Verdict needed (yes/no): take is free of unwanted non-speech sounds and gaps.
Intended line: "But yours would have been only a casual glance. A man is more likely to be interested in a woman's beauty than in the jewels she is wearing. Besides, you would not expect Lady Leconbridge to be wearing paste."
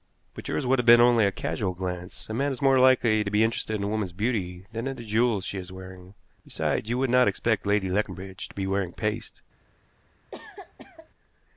no